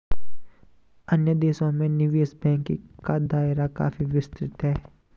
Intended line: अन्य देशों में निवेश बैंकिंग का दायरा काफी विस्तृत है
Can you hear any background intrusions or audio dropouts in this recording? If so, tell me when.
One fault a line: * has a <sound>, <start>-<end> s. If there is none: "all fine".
all fine